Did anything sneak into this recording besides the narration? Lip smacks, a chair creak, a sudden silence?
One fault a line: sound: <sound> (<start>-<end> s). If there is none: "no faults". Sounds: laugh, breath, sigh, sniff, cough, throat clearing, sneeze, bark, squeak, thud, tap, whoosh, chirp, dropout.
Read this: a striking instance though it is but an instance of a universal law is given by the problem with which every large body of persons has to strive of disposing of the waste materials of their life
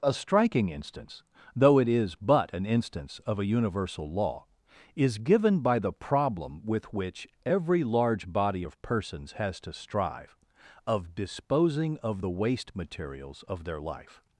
no faults